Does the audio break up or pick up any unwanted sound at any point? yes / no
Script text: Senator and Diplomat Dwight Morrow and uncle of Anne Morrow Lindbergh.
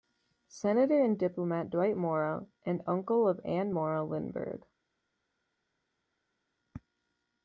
no